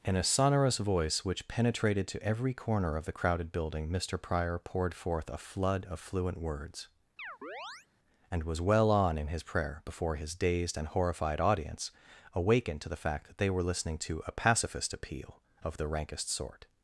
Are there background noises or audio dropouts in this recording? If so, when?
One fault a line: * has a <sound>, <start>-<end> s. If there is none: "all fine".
* has a chirp, 7.2-7.9 s